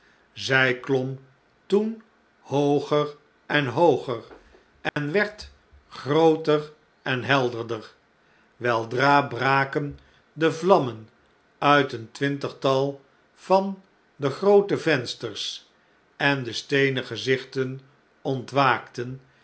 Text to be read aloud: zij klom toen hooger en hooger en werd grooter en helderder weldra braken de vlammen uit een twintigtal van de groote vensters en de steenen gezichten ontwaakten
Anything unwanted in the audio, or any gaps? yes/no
yes